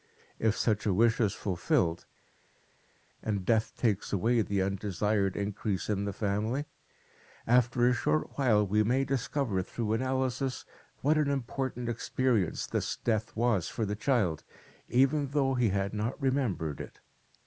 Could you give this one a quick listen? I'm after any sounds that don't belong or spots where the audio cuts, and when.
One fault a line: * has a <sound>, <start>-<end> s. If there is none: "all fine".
all fine